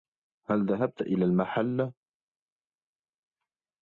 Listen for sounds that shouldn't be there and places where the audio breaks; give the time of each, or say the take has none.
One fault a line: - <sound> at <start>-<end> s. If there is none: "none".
none